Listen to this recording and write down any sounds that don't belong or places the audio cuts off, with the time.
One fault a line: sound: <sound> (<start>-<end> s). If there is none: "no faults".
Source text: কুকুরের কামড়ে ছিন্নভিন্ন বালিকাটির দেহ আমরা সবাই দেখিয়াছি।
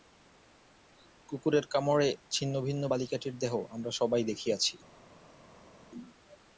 no faults